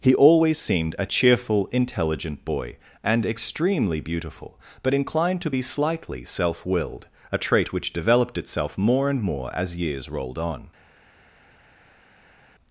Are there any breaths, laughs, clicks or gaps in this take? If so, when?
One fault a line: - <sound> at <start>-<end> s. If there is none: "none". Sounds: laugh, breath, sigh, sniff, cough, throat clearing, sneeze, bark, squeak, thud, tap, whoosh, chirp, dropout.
none